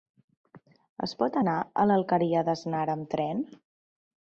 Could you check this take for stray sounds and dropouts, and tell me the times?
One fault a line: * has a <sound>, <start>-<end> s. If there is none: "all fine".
all fine